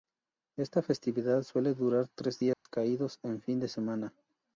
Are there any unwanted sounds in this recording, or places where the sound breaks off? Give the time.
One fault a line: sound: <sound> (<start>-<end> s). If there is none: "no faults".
sound: dropout (2.5-2.7 s)